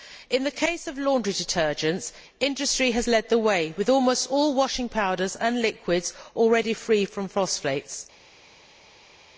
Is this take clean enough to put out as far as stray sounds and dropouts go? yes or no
yes